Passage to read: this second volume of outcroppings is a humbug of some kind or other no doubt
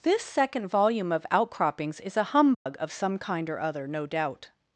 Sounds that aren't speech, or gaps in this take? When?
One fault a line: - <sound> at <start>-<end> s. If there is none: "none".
- dropout at 2.5-2.7 s